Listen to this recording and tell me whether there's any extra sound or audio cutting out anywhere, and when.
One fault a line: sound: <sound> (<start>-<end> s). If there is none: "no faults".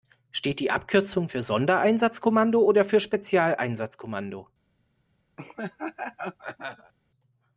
sound: laugh (5.4-6.9 s)